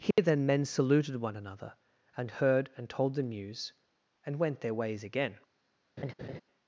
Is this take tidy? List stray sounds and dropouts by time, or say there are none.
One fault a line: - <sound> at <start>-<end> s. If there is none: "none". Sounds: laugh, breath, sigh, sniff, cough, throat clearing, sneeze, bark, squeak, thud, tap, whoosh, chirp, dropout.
- dropout at 0.1-0.2 s
- laugh at 6.0-6.4 s